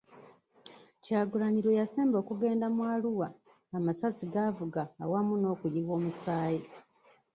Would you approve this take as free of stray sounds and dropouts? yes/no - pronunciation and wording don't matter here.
yes